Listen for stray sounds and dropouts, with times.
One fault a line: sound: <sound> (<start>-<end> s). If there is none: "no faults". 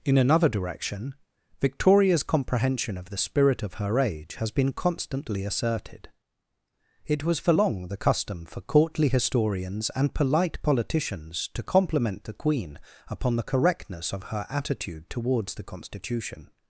no faults